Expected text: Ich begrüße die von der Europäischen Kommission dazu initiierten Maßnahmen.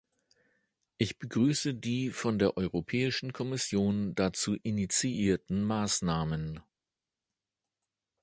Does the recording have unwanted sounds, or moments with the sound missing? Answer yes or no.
no